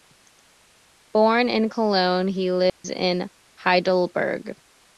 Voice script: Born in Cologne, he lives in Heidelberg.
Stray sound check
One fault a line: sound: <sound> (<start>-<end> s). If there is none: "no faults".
sound: dropout (2.7-2.8 s)